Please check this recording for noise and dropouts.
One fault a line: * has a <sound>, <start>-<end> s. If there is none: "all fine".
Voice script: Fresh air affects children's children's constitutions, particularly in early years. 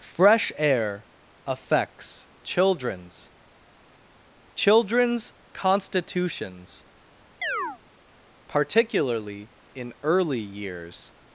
* has a chirp, 7.4-7.8 s